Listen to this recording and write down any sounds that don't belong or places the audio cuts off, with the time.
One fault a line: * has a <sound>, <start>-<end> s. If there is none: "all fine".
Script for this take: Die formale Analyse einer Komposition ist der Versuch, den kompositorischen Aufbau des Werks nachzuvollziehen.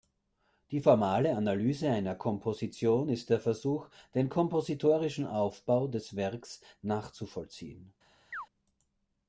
* has a chirp, 8.3-8.5 s